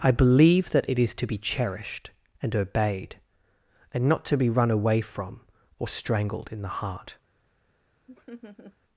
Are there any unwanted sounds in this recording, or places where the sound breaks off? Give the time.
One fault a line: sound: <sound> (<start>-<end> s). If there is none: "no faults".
sound: laugh (8.1-8.8 s)